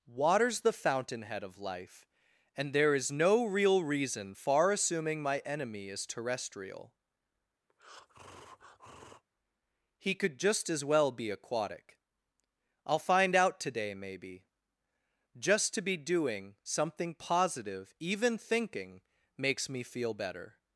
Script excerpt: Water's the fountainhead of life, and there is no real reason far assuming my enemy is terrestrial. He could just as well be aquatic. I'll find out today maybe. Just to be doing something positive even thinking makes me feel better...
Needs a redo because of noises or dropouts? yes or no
yes